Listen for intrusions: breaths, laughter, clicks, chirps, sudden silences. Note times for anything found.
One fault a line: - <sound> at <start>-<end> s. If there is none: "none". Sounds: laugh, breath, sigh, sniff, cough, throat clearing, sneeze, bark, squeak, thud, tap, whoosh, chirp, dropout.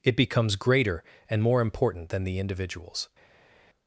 none